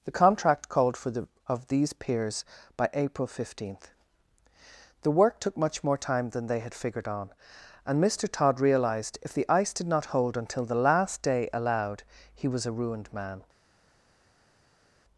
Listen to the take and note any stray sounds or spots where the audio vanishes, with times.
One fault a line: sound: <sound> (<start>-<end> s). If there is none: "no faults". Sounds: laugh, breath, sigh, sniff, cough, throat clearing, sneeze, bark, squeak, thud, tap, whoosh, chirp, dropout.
no faults